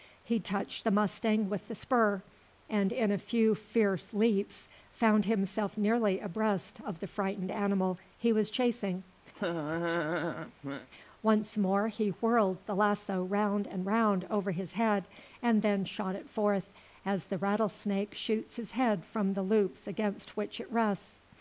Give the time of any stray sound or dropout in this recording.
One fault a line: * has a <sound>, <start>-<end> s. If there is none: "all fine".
* has a laugh, 9.3-10.9 s